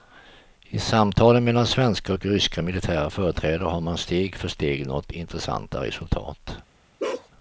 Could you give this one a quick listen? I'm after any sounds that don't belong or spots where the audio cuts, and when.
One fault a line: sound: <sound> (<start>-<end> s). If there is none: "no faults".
sound: bark (7.0-7.3 s)